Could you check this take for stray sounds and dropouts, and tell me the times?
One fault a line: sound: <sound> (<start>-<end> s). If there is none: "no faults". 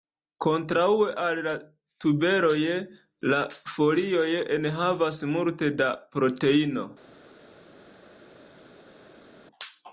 no faults